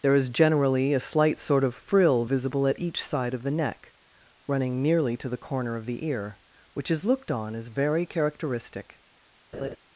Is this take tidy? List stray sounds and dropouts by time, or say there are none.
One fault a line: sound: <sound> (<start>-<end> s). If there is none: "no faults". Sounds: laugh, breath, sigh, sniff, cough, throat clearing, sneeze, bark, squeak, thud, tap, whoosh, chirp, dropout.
sound: laugh (9.5-9.8 s)